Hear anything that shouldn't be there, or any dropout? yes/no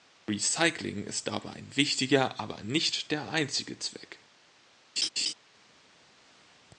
yes